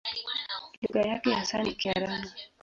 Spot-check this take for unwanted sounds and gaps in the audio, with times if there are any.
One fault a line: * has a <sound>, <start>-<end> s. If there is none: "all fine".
* has a dropout, 0.9-0.9 s